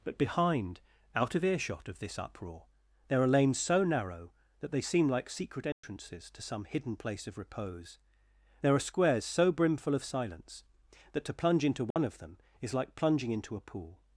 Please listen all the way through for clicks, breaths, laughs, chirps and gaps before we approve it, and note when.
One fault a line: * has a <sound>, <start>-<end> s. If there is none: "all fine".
* has a dropout, 5.7-5.8 s
* has a dropout, 11.9-12.0 s